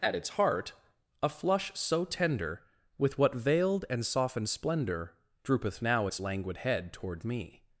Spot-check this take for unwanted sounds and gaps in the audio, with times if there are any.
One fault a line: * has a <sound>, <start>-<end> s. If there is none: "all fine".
all fine